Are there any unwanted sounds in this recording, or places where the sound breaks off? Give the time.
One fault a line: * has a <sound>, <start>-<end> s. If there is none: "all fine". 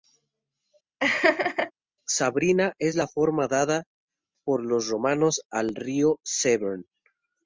* has a laugh, 1.0-1.7 s